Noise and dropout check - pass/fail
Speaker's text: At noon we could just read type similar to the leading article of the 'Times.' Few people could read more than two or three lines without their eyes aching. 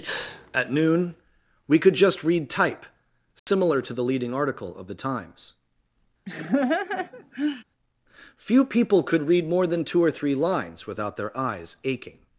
fail